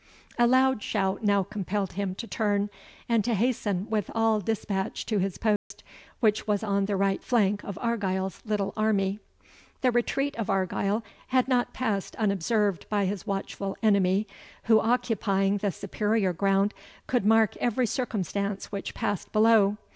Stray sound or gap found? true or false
true